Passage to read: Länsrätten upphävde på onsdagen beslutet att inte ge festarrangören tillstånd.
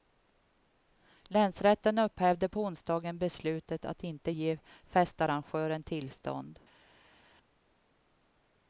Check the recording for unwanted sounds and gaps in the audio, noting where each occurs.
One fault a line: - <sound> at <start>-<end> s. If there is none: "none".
none